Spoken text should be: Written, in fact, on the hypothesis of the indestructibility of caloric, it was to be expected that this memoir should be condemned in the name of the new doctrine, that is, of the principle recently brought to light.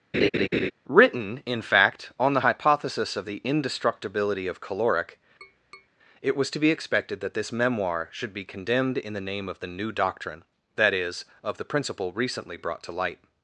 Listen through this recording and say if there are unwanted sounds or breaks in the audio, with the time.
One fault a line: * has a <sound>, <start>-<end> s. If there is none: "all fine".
* has a laugh, 0.1-0.7 s
* has a tap, 5.4-5.9 s